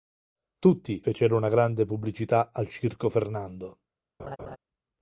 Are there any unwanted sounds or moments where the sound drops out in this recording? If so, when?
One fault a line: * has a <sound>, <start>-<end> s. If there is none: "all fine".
* has a laugh, 4.2-4.6 s